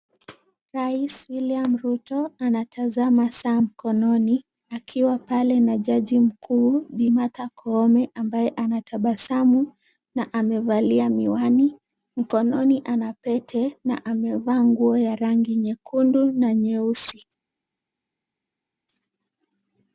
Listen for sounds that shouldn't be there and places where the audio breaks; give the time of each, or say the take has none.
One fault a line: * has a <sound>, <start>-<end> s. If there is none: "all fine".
all fine